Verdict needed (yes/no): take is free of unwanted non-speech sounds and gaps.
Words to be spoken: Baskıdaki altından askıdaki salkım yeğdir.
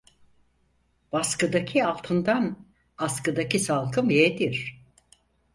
yes